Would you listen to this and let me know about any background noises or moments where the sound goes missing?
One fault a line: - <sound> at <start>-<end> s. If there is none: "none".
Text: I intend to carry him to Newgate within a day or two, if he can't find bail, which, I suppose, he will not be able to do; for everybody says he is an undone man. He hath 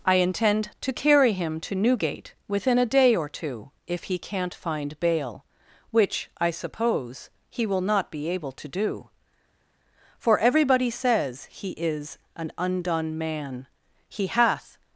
none